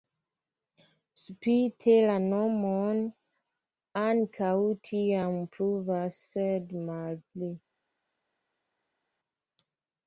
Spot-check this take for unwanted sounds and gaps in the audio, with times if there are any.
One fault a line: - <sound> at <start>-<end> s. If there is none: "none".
none